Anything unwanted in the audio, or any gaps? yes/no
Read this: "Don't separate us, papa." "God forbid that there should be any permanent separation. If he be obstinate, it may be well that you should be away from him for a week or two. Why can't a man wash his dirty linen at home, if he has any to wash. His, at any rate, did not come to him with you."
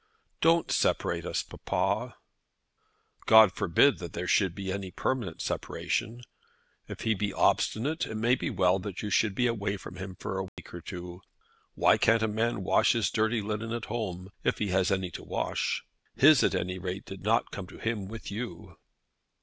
yes